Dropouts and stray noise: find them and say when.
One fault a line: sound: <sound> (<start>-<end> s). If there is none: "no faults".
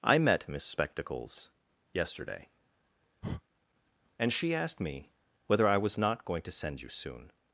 sound: breath (3.2-3.4 s)